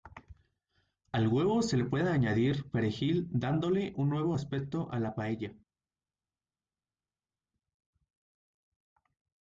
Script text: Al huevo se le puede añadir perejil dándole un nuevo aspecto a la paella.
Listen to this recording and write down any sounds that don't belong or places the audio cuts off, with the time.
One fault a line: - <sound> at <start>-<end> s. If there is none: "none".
none